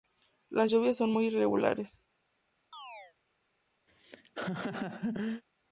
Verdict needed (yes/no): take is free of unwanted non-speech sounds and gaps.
no